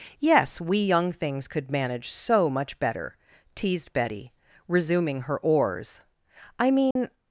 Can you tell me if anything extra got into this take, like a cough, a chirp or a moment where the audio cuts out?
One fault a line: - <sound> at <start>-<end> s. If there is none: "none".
- dropout at 6.9-7.0 s